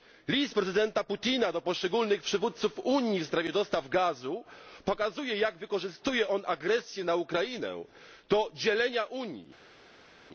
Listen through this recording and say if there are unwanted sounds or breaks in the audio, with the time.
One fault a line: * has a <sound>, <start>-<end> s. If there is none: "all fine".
all fine